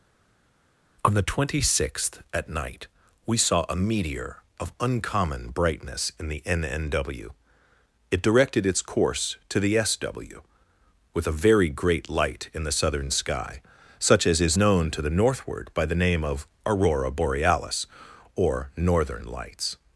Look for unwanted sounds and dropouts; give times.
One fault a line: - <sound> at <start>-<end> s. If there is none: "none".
none